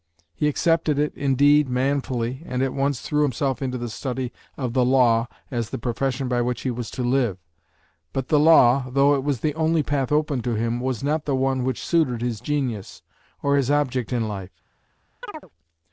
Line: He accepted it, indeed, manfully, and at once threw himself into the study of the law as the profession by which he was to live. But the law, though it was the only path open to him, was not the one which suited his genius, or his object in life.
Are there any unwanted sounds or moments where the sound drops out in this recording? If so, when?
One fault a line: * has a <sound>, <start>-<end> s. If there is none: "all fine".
* has a chirp, 15.2-15.5 s